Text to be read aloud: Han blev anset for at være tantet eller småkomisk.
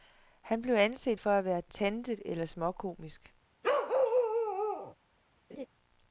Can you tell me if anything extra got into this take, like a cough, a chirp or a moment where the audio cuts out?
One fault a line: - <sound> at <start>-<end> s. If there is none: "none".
- bark at 3.6-4.9 s
- laugh at 5.5-5.7 s